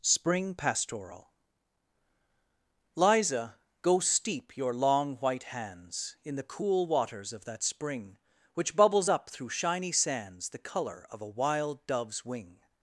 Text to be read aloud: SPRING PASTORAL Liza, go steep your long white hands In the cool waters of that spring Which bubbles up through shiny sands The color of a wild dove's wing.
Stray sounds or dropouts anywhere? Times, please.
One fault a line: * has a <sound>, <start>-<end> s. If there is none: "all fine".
all fine